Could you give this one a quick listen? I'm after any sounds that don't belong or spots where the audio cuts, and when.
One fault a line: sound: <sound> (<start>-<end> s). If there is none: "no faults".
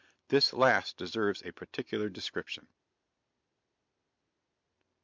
no faults